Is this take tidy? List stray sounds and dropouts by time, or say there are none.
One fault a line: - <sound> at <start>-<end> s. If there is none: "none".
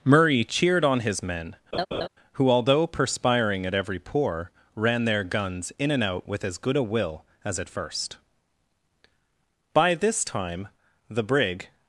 - laugh at 1.7-2.1 s